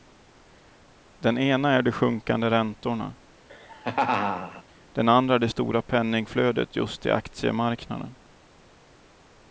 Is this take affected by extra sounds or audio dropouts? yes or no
yes